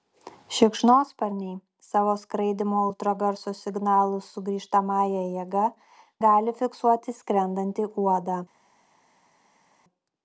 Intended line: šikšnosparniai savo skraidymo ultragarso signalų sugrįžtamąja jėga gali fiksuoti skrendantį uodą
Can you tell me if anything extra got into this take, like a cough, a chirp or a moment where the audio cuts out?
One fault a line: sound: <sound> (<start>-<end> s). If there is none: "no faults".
no faults